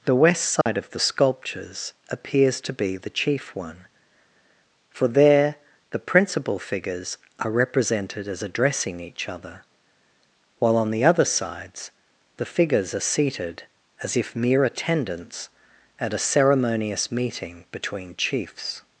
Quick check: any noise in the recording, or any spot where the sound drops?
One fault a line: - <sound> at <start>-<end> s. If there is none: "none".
- dropout at 0.6-0.7 s